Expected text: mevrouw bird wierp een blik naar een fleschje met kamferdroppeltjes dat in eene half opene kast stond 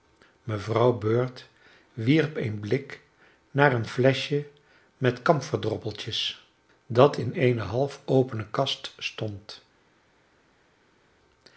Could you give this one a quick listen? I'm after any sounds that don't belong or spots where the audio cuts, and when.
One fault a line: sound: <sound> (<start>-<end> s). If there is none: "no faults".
no faults